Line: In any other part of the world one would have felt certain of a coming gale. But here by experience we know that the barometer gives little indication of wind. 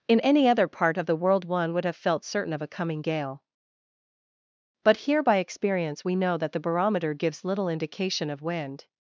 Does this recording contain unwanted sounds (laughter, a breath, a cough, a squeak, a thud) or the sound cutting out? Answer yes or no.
no